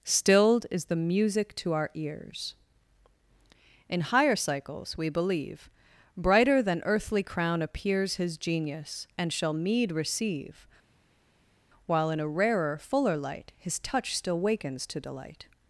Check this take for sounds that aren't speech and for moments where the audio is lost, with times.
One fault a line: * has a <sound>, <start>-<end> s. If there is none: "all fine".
all fine